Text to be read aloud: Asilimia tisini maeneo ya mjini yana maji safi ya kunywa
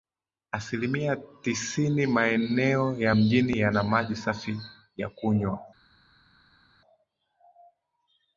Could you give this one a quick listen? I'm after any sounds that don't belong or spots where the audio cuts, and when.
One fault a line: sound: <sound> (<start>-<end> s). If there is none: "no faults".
no faults